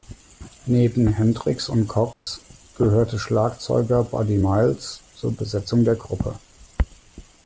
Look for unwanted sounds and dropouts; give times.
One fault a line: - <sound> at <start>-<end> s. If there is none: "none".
- dropout at 2.1-2.3 s